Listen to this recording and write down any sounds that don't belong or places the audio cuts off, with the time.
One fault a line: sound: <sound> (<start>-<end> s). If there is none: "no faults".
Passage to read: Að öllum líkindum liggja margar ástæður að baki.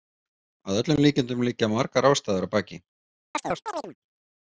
sound: chirp (3.3-4.0 s)